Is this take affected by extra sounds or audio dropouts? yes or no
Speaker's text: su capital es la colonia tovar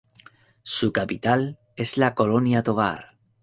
no